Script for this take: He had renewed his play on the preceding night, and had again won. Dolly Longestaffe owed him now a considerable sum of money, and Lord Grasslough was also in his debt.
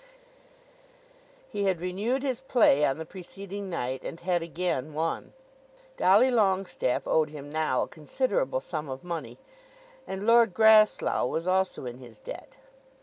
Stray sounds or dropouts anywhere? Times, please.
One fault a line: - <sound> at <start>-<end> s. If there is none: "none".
none